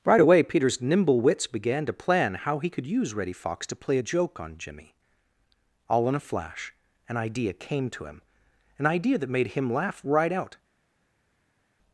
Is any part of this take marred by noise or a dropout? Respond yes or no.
no